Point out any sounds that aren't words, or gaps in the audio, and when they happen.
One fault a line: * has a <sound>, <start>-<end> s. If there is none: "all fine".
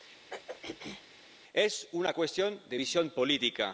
* has a throat clearing, 0.3-1.0 s